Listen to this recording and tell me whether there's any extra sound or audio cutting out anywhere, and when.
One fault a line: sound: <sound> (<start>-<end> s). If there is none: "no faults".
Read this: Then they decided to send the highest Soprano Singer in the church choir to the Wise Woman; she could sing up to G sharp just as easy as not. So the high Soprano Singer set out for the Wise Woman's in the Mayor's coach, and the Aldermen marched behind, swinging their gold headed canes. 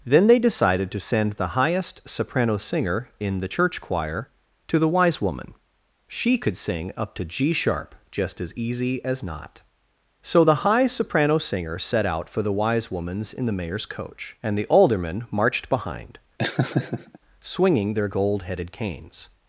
sound: laugh (16.4-17.2 s)